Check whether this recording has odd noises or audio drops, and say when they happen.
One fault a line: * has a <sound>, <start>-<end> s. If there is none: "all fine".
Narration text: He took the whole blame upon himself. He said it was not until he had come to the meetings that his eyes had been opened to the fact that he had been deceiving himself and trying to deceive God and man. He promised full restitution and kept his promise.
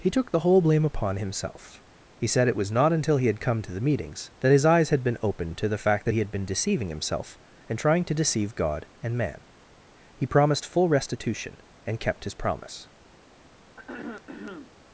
* has a throat clearing, 13.8-14.7 s